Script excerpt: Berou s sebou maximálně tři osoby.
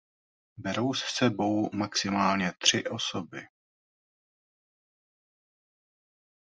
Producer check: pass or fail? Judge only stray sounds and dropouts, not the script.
pass